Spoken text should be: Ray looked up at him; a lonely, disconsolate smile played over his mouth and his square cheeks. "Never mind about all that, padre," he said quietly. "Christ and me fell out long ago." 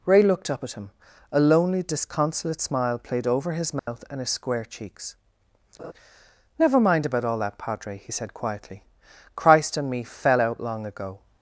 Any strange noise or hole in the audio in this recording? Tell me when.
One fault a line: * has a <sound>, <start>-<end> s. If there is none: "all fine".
* has a dropout, 3.8-3.9 s
* has a laugh, 5.8-5.9 s